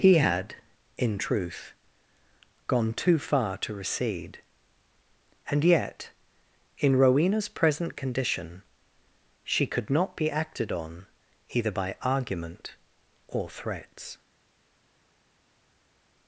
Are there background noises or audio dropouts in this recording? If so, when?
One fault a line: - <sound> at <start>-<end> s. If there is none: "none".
none